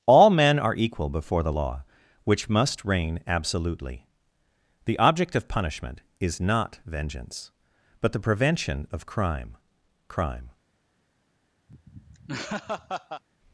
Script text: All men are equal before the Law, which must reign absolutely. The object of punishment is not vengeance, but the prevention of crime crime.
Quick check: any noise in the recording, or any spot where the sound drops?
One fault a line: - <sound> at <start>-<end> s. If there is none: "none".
- laugh at 11.7-13.2 s